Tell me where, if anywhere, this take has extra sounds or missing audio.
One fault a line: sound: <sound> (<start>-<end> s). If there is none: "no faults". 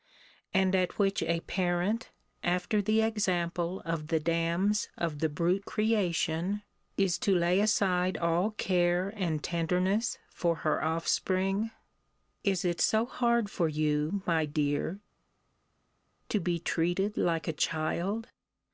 no faults